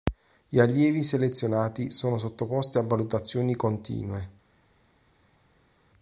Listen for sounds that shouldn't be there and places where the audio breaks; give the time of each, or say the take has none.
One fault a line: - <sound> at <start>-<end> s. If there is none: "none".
none